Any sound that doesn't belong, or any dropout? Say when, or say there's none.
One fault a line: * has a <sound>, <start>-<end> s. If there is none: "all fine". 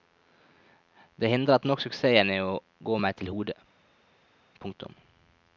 all fine